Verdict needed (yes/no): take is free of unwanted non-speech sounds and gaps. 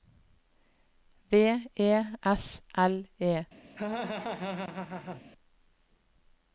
no